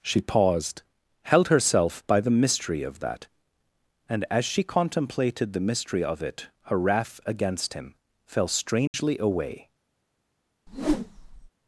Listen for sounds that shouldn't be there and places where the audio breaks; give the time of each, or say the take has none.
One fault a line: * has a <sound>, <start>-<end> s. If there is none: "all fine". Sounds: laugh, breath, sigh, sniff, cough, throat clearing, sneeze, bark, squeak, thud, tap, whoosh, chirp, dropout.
* has a dropout, 8.9-8.9 s
* has a whoosh, 10.7-11.5 s